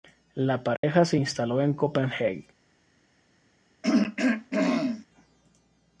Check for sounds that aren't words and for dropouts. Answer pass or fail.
fail